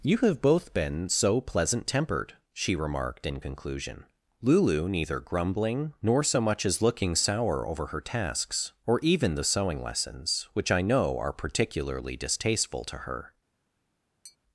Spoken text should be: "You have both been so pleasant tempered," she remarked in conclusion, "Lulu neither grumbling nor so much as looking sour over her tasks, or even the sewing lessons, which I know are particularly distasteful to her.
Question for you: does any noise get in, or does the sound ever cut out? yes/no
yes